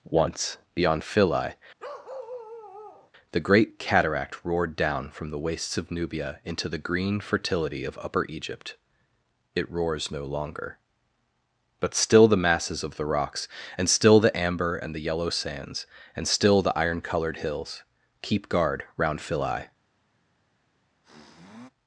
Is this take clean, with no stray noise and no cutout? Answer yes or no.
no